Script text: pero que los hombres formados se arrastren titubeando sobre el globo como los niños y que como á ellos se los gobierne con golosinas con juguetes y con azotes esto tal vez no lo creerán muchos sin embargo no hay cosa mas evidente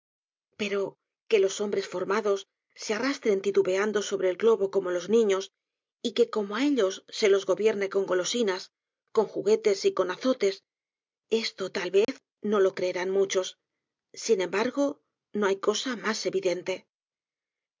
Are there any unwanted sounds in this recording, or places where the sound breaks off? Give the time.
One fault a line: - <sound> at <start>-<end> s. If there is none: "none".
- dropout at 12.0-12.1 s